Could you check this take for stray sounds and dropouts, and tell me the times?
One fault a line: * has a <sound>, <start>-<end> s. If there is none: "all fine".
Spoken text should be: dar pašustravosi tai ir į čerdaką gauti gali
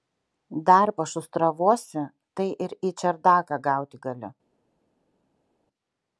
all fine